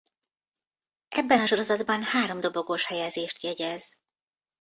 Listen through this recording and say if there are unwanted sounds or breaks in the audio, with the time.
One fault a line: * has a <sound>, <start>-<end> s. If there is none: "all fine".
all fine